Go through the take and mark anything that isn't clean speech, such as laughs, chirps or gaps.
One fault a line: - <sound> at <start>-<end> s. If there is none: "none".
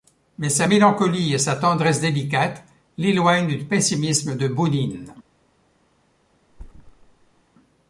- thud at 6.5-7.4 s